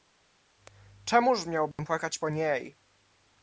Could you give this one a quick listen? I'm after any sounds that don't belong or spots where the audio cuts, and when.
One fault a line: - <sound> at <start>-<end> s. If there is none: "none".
- dropout at 1.7-1.8 s